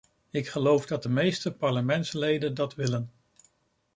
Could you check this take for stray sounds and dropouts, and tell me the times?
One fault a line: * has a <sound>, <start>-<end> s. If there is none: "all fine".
all fine